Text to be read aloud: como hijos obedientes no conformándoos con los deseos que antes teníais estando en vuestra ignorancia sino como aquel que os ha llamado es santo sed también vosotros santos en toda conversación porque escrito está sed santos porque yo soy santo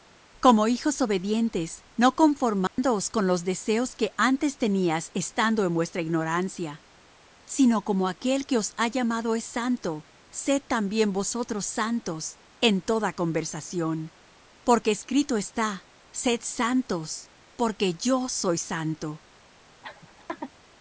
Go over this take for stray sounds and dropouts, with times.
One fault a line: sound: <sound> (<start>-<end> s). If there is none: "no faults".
sound: dropout (2.7-2.8 s)
sound: laugh (19.8-20.5 s)